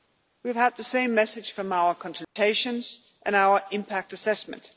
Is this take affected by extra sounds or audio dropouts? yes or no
yes